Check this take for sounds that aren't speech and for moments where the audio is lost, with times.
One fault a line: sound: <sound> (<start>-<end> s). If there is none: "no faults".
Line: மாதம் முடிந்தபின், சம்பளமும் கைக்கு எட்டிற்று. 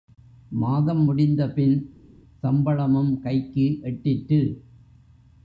no faults